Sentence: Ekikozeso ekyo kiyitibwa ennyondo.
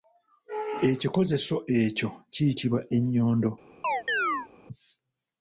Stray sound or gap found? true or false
true